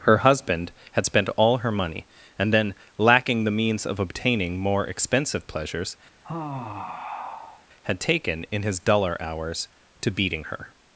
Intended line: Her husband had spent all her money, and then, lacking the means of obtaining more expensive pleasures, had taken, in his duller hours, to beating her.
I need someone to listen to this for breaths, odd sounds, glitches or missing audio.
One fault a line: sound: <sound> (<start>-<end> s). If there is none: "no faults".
sound: sigh (6.2-7.7 s)